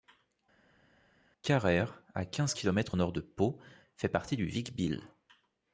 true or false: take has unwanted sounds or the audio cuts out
false